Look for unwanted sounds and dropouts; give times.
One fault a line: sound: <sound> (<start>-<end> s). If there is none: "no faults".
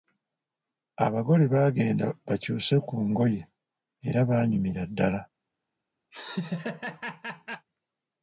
sound: laugh (6.1-7.7 s)